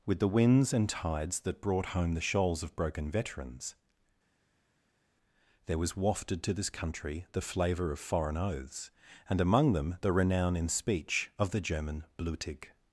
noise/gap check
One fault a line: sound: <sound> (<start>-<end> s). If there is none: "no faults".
no faults